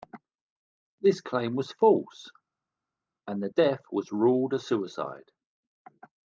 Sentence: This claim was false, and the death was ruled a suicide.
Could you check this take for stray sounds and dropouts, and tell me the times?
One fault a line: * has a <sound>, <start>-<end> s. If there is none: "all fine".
all fine